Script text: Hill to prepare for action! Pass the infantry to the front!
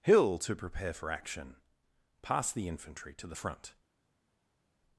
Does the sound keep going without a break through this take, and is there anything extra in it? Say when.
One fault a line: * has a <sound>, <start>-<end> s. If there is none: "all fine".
all fine